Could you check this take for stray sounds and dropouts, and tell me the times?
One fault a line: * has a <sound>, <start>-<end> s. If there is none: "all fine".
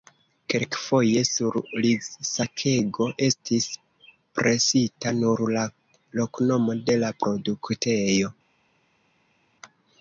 all fine